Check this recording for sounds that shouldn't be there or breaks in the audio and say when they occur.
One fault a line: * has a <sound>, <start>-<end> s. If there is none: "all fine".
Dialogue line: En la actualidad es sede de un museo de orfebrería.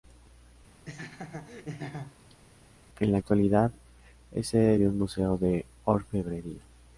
* has a laugh, 0.9-2.4 s